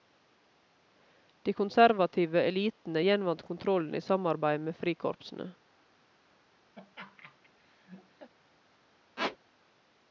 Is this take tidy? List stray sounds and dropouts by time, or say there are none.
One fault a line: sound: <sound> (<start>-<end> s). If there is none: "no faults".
sound: laugh (6.8-8.3 s)
sound: squeak (9.2-9.4 s)